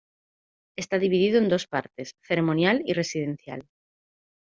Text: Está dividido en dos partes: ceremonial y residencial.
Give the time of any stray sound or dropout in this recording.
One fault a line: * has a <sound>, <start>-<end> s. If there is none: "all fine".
all fine